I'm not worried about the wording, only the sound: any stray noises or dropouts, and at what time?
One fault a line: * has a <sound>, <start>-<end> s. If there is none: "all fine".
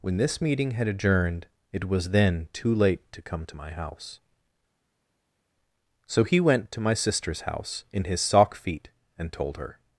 all fine